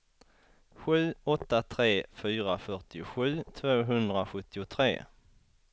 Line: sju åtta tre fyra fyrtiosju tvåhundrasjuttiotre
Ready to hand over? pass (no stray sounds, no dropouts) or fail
pass